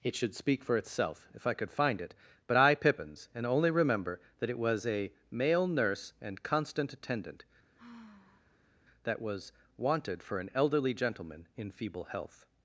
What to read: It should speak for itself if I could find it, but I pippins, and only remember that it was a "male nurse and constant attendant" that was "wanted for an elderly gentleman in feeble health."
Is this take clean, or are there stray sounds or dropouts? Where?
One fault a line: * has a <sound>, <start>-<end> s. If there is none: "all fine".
* has a sigh, 7.8-8.8 s